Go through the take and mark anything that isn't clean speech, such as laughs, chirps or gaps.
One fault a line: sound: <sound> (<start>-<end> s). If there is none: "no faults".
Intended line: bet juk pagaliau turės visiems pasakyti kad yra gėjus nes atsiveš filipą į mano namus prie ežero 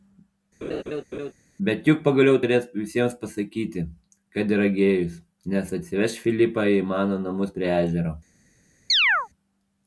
sound: laugh (0.6-1.3 s)
sound: chirp (8.9-9.3 s)